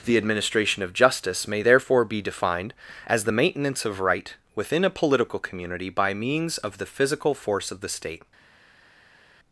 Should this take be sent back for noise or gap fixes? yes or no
no